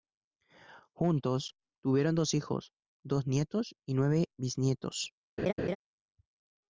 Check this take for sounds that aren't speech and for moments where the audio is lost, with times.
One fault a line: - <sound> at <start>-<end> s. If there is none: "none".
- laugh at 5.4-5.8 s